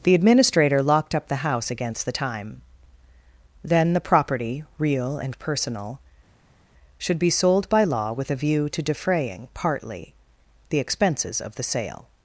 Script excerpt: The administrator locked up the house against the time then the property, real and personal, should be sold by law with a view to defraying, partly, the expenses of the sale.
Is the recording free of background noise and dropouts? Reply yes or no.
yes